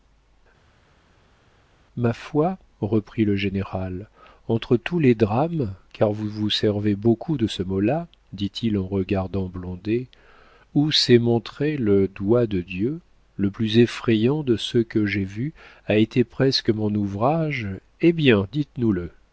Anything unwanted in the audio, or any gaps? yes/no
no